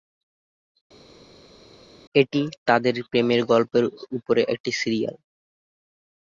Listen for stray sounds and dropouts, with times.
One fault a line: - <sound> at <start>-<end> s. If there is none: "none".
none